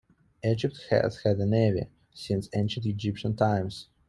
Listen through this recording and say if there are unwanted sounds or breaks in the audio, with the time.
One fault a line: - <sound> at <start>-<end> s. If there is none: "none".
none